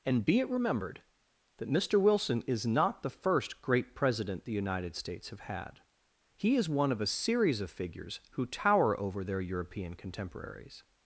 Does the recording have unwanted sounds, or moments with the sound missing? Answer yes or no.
no